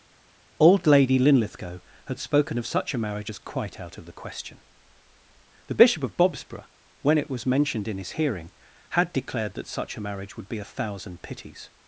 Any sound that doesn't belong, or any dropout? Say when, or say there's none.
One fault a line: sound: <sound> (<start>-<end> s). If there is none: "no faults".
no faults